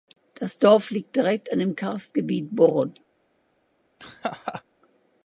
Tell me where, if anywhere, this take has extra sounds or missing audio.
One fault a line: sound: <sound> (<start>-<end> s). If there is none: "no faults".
sound: laugh (4.0-4.6 s)